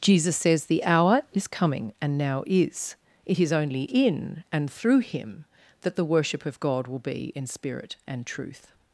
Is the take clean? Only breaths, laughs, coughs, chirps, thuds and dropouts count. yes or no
yes